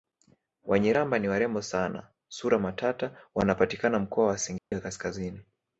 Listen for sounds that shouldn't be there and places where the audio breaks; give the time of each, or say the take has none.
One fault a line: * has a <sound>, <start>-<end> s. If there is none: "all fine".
* has a dropout, 4.6-4.7 s